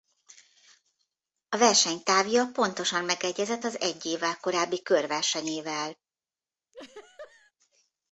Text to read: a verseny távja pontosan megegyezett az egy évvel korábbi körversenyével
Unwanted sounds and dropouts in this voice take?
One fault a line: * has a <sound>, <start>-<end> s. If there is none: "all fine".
* has a laugh, 6.7-7.5 s